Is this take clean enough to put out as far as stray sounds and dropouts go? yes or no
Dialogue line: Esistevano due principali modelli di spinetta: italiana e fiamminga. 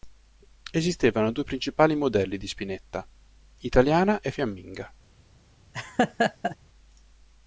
no